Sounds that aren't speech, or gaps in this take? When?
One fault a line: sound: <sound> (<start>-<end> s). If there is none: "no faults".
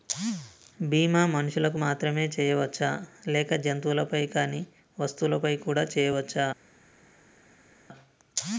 no faults